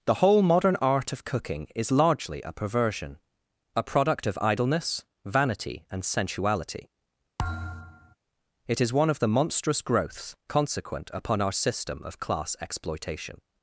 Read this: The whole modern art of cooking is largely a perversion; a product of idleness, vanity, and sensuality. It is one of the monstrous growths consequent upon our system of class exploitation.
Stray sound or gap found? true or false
true